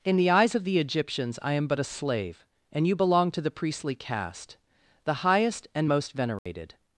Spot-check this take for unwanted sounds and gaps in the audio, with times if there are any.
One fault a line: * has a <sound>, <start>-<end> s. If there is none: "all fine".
* has a dropout, 6.4-6.5 s